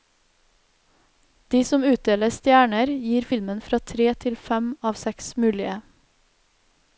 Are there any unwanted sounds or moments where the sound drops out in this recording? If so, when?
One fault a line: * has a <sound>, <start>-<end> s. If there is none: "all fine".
all fine